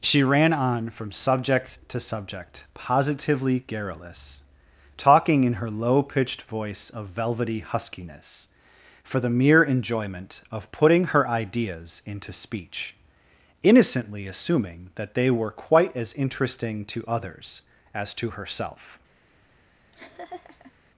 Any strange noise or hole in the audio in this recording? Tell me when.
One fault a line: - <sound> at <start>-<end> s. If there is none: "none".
- laugh at 19.9-20.7 s